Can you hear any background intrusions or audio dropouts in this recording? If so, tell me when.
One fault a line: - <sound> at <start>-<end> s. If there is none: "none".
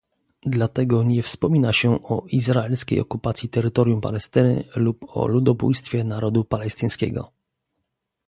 none